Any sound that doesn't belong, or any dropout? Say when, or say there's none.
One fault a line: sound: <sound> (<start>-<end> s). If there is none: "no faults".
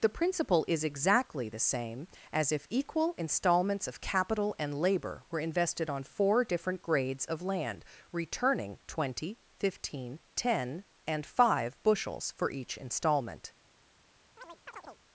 sound: chirp (14.4-15.0 s)